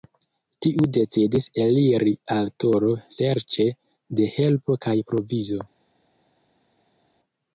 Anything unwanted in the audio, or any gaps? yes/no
no